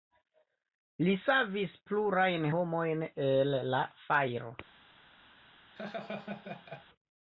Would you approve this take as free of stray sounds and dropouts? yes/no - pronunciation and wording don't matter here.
no